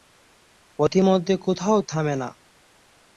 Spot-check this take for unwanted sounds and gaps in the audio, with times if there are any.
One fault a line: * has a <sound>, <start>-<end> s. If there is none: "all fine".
all fine